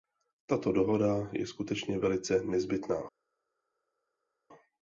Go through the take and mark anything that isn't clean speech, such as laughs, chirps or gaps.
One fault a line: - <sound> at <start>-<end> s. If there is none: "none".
none